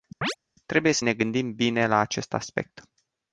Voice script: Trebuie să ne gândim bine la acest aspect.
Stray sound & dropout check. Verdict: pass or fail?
fail